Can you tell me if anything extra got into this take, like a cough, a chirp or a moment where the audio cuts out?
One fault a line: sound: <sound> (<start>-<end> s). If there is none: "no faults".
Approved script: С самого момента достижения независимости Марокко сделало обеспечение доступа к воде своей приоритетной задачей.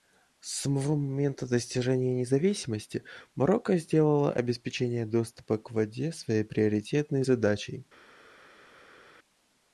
no faults